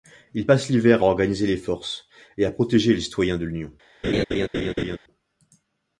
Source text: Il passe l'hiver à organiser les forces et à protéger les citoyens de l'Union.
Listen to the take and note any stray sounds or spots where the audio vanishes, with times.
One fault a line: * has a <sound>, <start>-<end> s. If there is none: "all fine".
* has a laugh, 4.0-5.0 s